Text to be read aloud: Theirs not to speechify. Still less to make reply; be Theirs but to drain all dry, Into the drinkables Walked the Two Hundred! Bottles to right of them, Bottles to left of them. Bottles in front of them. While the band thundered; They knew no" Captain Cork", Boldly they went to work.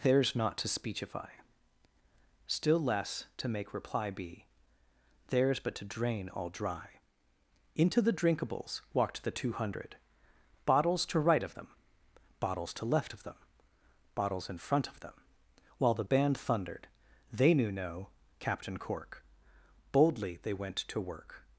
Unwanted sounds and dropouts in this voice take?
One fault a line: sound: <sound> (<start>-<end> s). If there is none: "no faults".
no faults